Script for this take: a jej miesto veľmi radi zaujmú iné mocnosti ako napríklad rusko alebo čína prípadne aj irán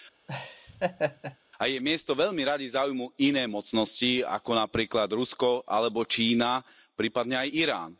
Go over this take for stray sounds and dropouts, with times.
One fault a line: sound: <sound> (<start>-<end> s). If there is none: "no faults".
sound: laugh (0.3-1.4 s)